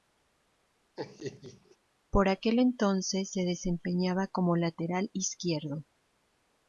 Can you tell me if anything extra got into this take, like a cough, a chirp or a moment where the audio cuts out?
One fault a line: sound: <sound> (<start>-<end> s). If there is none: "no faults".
sound: laugh (1.0-1.8 s)